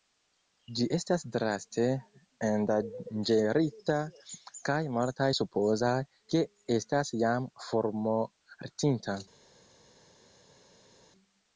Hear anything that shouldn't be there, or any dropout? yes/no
no